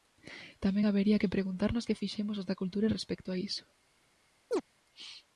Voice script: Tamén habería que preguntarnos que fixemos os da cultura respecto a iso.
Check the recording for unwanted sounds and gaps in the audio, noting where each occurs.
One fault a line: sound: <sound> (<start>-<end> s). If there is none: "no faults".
sound: chirp (4.5-4.6 s)